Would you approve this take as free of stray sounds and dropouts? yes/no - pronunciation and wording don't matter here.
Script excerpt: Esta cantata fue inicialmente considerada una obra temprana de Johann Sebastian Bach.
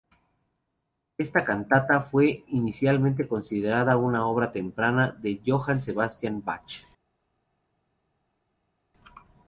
yes